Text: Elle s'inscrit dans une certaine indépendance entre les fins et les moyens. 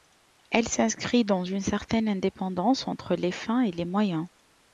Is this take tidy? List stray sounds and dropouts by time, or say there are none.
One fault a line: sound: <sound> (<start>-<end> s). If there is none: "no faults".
no faults